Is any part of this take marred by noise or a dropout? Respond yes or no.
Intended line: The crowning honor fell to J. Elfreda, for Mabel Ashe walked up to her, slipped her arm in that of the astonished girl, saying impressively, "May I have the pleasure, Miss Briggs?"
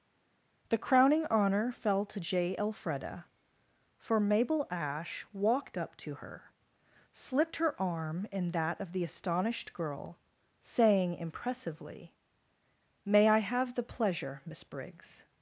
no